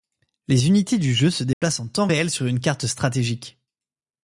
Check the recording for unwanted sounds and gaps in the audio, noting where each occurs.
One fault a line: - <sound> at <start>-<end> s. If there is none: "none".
- dropout at 1.5-1.6 s